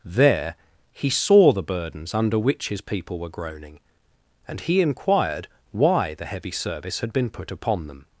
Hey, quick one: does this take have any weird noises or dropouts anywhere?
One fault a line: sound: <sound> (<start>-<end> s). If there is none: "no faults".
no faults